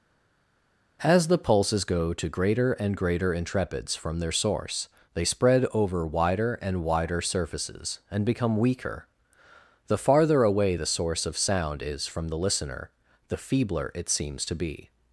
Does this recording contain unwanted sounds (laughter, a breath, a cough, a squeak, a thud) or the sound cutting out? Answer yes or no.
no